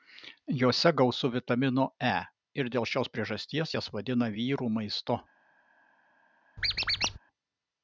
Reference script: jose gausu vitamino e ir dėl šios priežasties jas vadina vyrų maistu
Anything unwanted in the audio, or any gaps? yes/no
yes